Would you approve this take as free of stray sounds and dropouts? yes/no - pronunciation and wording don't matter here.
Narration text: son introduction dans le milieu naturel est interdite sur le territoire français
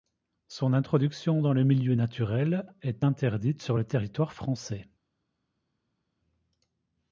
yes